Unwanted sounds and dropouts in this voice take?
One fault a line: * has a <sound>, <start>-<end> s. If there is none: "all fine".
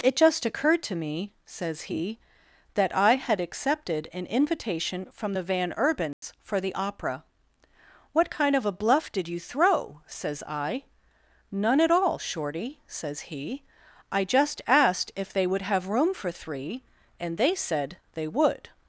* has a dropout, 6.1-6.2 s